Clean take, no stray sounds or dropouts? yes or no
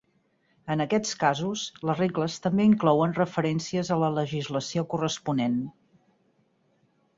yes